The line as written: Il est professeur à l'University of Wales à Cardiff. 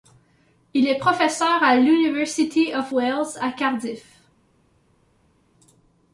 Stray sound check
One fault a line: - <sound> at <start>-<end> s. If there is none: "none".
none